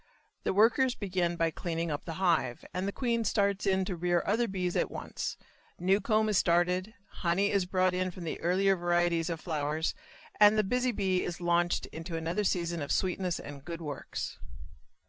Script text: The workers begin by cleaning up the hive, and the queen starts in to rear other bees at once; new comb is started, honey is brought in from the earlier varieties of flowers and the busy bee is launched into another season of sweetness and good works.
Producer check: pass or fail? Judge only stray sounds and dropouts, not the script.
pass